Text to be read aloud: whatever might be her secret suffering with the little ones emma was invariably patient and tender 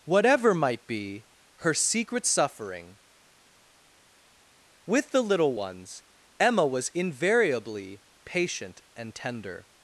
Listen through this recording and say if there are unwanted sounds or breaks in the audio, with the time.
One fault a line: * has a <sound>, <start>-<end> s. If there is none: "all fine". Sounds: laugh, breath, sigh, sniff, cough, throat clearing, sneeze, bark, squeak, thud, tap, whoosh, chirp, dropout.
all fine